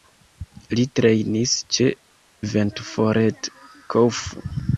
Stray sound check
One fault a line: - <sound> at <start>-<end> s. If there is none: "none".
none